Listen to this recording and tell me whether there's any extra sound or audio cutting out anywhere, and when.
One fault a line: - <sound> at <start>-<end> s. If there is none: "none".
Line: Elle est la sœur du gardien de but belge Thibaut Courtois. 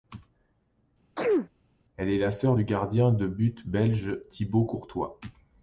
- sneeze at 1.2-1.5 s